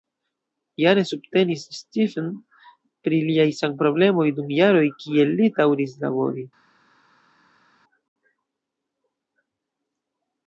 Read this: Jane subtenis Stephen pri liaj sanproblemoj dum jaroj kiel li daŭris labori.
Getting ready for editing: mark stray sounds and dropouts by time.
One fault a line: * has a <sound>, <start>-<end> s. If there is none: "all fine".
all fine